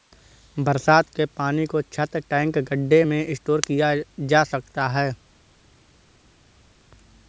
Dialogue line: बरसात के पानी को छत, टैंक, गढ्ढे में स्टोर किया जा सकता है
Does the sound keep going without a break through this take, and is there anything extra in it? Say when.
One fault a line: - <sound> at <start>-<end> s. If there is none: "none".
none